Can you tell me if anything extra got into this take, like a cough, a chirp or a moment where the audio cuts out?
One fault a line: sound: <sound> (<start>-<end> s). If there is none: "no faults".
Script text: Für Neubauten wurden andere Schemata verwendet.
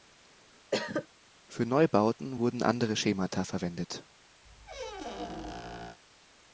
sound: cough (0.7-1.1 s)
sound: squeak (4.4-6.0 s)